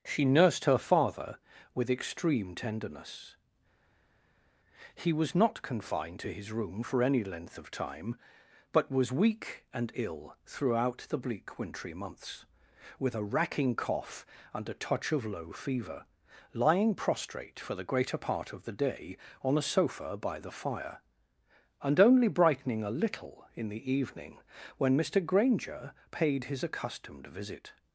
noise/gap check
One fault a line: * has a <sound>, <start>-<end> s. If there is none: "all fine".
all fine